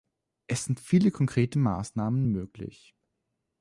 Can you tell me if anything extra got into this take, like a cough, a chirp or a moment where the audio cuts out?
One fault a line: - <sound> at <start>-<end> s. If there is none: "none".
none